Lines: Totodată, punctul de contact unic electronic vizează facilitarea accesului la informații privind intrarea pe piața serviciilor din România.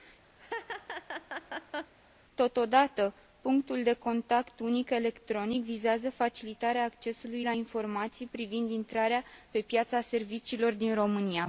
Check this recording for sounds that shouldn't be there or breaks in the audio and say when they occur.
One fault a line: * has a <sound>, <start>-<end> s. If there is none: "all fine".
* has a laugh, 0.4-1.9 s